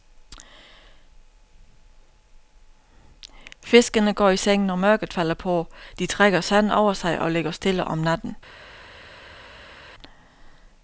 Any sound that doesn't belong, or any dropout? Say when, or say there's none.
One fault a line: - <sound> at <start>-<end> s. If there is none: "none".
none